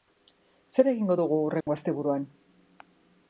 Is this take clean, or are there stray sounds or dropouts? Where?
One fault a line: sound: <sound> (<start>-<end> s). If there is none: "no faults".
sound: dropout (1.6-1.7 s)